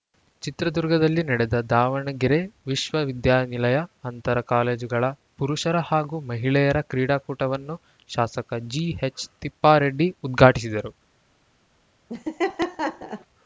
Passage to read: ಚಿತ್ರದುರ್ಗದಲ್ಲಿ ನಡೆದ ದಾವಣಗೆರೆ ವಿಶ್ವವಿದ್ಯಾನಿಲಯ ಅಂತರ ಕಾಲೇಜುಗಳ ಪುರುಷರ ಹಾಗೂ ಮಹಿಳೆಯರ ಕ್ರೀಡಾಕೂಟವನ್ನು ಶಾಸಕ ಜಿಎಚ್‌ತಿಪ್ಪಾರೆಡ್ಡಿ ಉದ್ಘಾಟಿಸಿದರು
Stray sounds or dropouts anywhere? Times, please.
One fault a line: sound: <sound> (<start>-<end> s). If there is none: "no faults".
sound: laugh (12.1-13.3 s)